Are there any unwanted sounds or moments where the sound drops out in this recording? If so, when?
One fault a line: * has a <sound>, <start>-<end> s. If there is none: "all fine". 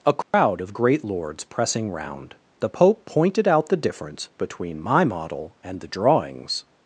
* has a dropout, 0.2-0.3 s